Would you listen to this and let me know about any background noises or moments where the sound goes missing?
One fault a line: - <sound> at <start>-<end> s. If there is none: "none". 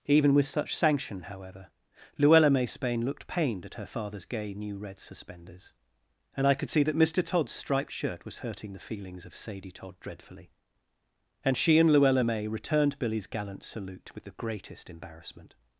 none